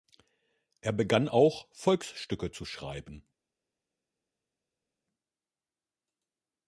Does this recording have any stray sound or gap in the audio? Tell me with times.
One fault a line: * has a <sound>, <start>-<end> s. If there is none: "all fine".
all fine